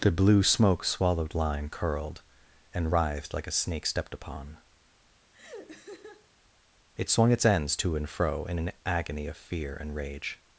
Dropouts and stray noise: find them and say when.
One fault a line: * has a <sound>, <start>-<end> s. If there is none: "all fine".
* has a laugh, 5.3-6.3 s